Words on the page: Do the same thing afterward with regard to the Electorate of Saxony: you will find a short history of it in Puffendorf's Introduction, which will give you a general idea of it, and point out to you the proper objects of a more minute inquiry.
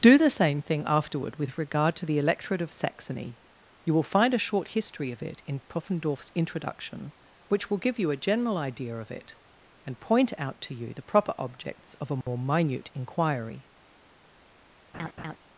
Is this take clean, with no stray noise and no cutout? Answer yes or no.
no